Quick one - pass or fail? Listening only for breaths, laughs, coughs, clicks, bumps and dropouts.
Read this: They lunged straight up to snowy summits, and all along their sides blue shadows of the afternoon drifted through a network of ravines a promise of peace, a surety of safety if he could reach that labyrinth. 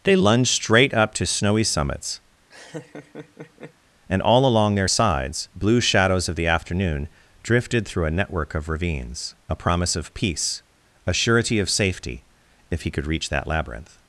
fail